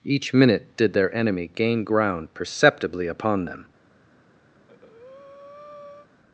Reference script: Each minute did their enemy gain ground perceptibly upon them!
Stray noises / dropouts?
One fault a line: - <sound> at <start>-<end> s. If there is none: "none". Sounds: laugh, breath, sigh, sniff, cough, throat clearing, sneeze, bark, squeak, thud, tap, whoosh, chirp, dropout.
- breath at 4.5-6.1 s